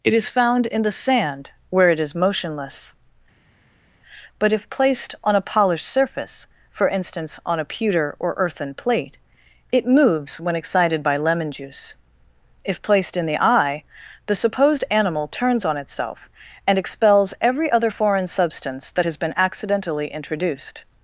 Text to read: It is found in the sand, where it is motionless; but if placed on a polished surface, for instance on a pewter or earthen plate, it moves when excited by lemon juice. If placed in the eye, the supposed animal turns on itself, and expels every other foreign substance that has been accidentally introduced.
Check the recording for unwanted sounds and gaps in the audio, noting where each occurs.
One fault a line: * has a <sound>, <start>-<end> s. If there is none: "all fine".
all fine